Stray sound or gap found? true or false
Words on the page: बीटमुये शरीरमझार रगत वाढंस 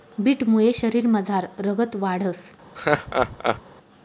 true